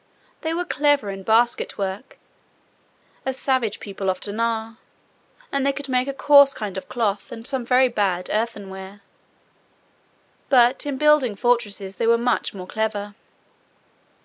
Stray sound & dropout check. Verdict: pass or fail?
pass